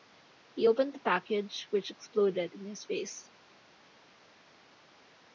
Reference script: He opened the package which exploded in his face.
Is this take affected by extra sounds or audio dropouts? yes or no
no